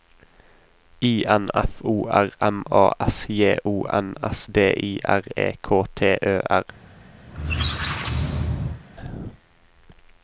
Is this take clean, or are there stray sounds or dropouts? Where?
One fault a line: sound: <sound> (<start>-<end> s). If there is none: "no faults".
sound: squeak (7.3-8.8 s)